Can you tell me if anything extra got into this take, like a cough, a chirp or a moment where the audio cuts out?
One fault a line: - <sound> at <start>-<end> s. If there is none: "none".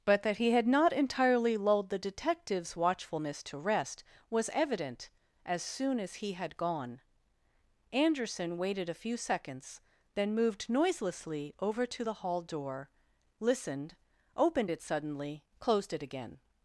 none